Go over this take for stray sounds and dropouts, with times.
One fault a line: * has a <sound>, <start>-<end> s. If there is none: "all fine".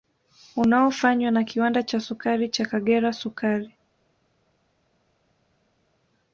all fine